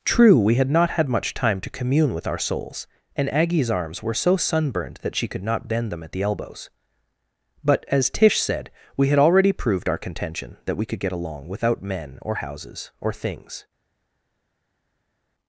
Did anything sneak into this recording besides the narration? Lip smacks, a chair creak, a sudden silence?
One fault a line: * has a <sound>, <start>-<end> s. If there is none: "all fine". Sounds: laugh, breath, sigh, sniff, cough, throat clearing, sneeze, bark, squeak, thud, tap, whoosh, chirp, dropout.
all fine